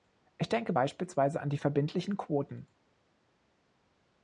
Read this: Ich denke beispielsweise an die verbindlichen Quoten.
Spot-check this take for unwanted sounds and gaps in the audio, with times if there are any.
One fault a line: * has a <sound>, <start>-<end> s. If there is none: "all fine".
all fine